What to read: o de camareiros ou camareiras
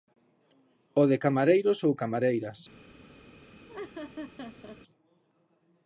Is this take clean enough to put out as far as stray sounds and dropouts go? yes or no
no